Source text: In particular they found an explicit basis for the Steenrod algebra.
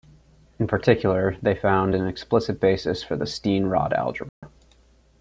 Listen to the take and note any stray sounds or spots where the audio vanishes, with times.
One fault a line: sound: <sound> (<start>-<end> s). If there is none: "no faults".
sound: dropout (4.3-4.4 s)